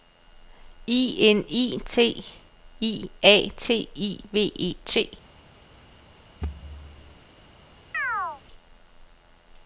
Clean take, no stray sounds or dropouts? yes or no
no